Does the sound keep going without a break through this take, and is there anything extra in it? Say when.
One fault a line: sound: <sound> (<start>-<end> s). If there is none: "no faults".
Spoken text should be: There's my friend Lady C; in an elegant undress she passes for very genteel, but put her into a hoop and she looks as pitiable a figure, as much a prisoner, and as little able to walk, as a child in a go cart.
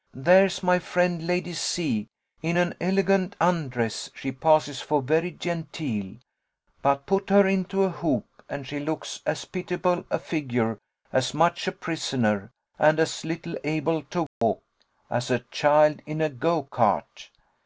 sound: dropout (14.3-14.4 s)